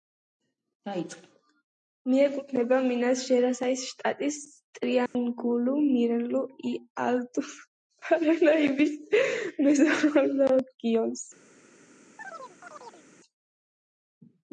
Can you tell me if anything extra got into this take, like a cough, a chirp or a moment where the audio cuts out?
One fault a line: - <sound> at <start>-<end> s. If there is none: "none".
- dropout at 5.1-5.2 s
- chirp at 12.2-13.1 s